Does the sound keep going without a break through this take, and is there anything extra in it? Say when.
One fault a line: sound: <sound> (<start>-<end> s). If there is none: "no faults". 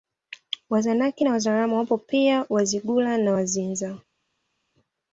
no faults